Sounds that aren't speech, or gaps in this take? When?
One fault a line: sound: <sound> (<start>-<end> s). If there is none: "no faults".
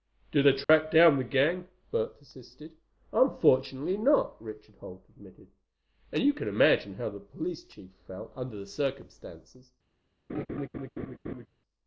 sound: dropout (0.6-0.7 s)
sound: laugh (10.3-11.5 s)